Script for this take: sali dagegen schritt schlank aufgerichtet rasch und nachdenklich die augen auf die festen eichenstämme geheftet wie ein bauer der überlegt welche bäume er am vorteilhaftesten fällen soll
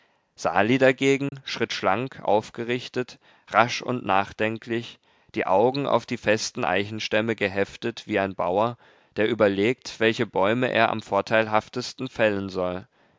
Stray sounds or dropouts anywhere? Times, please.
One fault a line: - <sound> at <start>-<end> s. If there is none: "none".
- dropout at 1.3-1.3 s